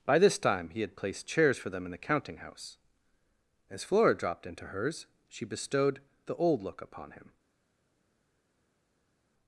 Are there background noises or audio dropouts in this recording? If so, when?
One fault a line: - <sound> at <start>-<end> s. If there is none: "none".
none